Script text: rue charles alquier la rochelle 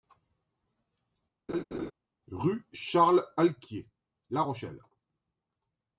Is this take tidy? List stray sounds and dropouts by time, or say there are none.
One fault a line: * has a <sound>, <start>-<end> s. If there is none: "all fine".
* has a laugh, 1.5-1.9 s